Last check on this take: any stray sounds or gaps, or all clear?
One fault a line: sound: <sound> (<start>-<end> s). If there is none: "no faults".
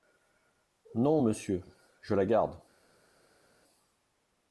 no faults